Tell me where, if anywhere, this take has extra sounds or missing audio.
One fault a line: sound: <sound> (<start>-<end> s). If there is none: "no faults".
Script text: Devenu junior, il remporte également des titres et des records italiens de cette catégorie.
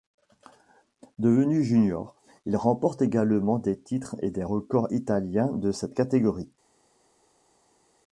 no faults